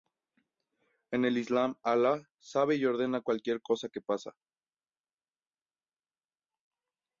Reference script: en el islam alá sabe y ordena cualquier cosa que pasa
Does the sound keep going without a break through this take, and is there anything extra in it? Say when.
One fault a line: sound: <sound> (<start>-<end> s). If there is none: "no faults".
no faults